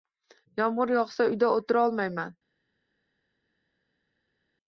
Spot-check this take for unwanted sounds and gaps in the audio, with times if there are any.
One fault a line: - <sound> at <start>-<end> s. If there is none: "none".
none